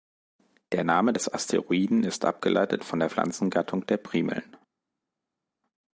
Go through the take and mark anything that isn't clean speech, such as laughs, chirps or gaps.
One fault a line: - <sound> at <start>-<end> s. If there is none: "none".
none